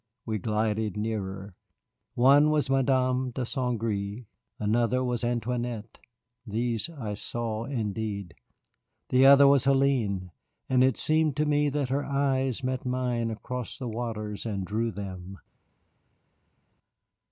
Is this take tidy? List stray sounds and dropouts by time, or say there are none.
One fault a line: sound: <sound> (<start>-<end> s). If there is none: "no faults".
no faults